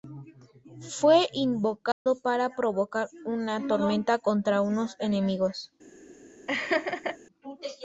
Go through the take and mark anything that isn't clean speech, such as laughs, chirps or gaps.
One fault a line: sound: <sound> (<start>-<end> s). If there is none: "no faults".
sound: dropout (1.9-2.1 s)
sound: laugh (6.5-7.2 s)